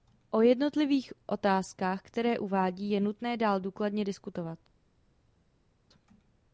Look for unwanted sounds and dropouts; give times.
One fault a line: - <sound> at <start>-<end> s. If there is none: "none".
none